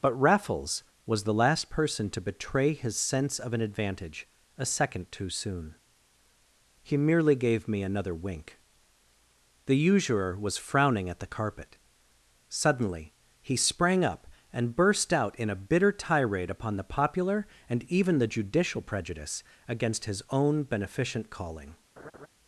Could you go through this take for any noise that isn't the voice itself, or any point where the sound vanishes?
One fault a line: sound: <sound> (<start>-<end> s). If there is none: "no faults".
sound: laugh (22.0-22.3 s)